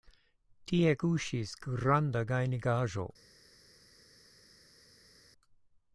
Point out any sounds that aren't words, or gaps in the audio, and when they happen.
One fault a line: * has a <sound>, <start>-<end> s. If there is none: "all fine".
all fine